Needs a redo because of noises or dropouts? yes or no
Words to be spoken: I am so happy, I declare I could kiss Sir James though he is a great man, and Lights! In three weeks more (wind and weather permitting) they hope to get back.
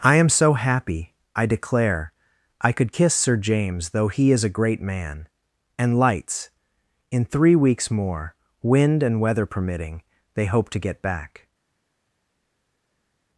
no